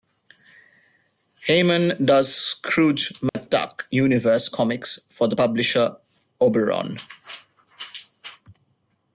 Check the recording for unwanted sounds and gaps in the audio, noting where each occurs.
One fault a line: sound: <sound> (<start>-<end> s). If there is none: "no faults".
sound: dropout (3.3-3.3 s)